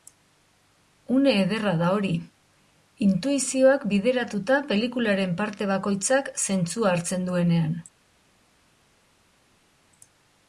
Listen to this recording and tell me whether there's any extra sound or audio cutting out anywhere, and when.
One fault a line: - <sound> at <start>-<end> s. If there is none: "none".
none